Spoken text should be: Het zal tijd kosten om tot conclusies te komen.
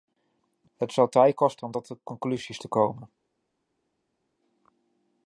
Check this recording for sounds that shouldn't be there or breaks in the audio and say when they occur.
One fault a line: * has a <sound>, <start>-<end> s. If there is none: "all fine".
all fine